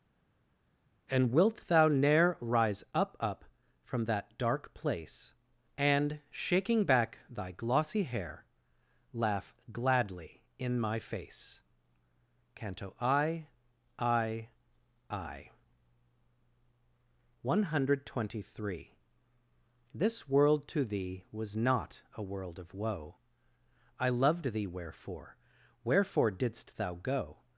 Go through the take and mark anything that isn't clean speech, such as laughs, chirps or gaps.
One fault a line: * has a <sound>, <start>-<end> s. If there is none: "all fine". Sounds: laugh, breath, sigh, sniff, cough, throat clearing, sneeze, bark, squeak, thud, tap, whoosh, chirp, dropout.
all fine